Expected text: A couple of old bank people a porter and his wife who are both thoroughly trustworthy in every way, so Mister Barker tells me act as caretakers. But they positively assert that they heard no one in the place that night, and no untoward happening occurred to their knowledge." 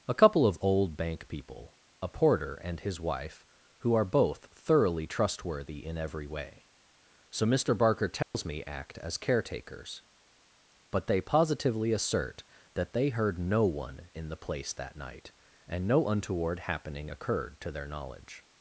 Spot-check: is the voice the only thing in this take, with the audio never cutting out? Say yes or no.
no